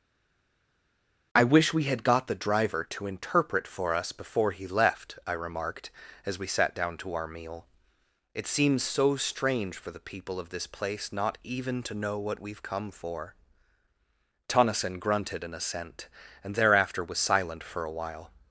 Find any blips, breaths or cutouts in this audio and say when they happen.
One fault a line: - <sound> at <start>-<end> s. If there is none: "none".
none